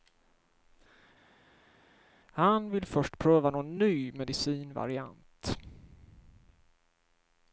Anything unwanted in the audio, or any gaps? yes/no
no